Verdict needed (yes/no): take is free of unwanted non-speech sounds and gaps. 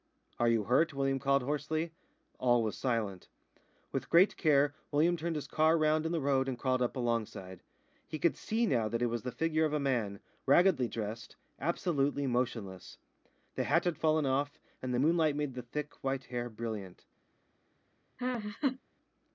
no